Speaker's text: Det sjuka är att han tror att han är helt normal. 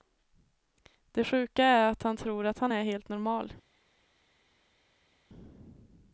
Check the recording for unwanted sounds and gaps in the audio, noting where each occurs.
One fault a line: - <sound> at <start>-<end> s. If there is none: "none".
none